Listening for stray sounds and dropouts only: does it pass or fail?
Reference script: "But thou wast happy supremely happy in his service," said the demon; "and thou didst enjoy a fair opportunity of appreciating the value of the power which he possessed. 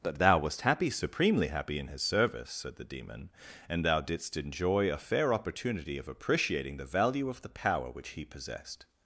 pass